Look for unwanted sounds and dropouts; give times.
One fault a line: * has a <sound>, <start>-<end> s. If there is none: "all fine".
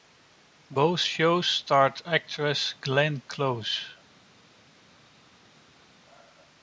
all fine